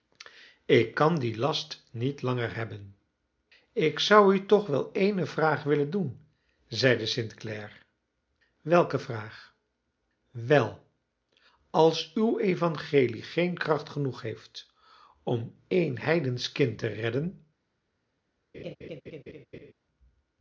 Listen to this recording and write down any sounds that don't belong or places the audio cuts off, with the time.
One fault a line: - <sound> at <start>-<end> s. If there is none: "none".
- laugh at 18.5-19.7 s